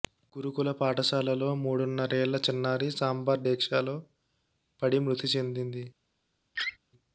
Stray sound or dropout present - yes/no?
yes